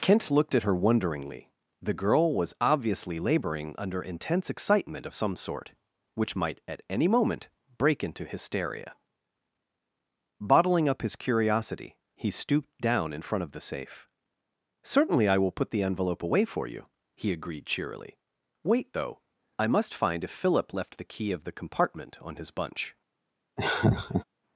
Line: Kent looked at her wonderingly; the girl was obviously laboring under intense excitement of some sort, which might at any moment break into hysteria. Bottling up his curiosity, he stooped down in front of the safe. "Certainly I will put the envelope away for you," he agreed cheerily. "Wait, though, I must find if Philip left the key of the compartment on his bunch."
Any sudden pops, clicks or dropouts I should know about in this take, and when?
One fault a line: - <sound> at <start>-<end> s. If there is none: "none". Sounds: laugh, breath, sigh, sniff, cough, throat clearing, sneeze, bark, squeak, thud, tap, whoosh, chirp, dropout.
- laugh at 23.6-24.2 s